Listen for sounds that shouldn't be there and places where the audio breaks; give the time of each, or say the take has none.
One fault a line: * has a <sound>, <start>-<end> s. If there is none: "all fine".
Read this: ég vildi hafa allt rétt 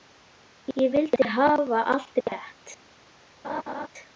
* has a dropout, 2.2-2.3 s
* has a laugh, 3.4-3.9 s